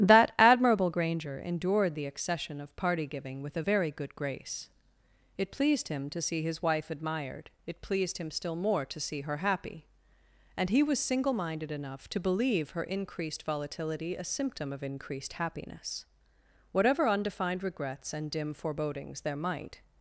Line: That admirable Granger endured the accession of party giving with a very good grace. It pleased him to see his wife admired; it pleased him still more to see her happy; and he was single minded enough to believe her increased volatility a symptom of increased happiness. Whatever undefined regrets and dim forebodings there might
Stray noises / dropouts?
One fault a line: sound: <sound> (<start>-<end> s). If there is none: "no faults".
no faults